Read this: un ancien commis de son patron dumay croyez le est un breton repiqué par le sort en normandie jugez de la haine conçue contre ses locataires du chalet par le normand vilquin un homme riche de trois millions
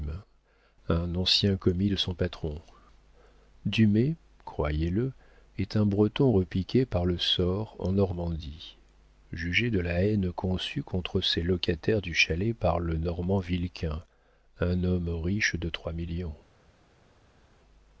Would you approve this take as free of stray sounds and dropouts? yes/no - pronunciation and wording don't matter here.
yes